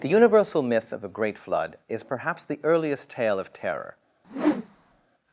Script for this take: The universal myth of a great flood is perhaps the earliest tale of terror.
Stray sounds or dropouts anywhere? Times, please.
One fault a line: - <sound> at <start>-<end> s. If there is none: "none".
- whoosh at 4.2-5.1 s